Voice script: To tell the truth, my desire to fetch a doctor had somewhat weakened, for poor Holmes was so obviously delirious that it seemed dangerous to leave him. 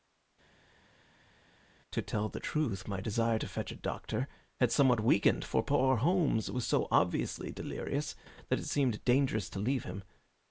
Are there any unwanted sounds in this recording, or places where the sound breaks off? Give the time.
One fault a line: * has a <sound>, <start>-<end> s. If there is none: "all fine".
all fine